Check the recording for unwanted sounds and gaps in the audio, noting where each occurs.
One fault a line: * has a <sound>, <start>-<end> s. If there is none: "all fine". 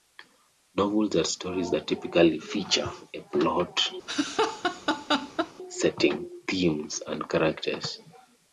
* has a laugh, 4.1-5.5 s